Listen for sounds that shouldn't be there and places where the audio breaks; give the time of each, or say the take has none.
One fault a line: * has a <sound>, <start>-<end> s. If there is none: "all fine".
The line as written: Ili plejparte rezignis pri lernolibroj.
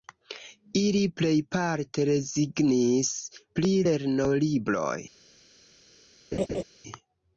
* has a laugh, 6.3-6.6 s